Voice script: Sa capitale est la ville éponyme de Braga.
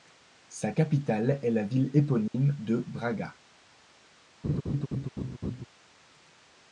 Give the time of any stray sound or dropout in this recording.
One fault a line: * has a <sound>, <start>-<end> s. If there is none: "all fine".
* has a dropout, 2.3-2.3 s
* has a laugh, 4.4-5.6 s